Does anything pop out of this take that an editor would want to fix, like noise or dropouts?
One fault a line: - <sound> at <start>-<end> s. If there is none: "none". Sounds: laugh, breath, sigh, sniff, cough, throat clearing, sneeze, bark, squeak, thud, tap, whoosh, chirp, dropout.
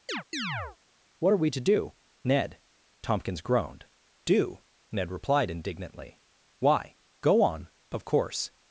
- chirp at 0.1-0.8 s